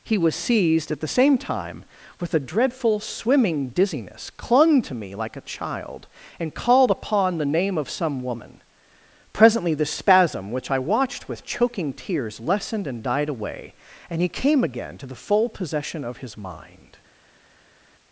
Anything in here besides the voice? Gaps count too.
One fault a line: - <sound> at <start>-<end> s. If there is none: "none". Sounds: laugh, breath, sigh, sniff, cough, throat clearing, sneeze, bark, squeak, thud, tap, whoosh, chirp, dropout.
none